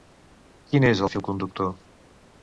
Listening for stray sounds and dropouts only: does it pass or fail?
pass